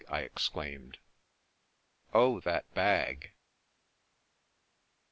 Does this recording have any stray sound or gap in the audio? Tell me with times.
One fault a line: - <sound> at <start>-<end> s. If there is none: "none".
none